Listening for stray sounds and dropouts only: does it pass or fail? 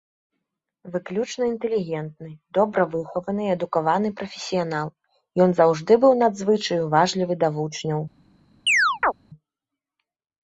fail